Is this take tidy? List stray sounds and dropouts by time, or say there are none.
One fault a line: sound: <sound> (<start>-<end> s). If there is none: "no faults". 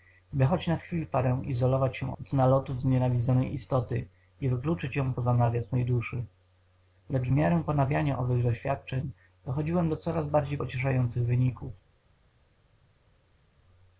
no faults